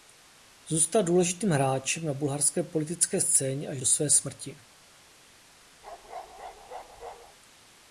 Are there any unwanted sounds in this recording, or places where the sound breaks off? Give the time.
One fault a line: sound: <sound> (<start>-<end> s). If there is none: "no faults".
sound: bark (5.8-7.4 s)